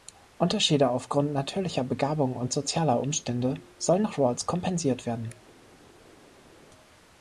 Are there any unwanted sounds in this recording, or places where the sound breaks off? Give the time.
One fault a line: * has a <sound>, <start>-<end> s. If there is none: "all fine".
all fine